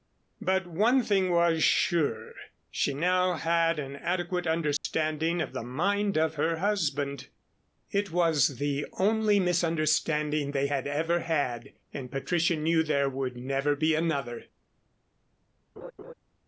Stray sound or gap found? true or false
true